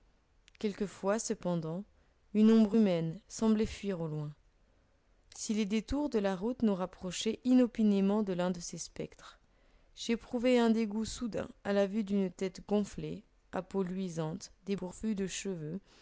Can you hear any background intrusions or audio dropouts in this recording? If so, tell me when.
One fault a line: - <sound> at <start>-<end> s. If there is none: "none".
none